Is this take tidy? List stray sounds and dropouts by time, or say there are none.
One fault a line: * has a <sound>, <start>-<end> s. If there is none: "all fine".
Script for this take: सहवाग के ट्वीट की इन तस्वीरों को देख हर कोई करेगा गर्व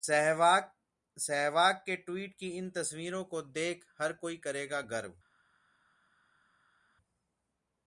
all fine